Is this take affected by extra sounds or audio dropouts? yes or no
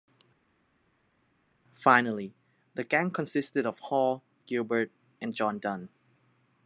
no